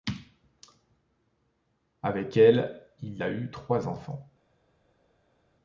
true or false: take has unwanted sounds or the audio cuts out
false